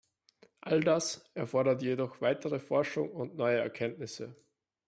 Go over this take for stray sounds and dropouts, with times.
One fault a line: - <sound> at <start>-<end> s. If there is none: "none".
none